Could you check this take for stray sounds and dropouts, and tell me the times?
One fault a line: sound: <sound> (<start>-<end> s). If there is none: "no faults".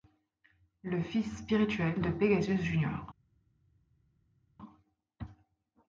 no faults